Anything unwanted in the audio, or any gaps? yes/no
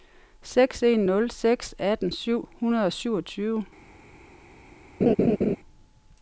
yes